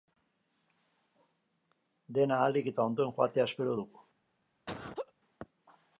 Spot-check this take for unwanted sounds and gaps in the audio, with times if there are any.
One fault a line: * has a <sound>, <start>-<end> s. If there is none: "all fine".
* has a laugh, 4.7-5.1 s